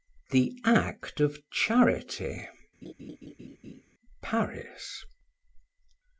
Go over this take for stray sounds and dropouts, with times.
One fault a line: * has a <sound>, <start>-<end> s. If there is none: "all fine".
* has a laugh, 2.8-3.8 s